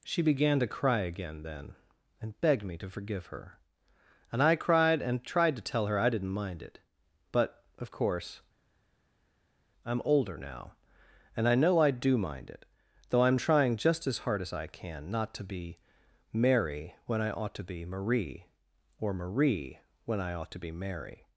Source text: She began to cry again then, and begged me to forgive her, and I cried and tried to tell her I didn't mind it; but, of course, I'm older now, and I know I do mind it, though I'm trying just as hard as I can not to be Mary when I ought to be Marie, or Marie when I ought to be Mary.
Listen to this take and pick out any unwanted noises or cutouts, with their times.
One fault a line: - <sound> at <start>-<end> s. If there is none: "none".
none